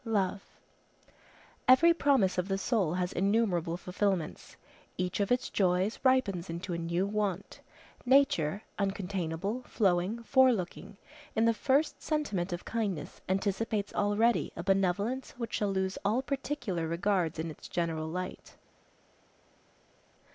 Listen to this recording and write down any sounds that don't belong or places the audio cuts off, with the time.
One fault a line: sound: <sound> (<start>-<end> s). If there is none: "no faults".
no faults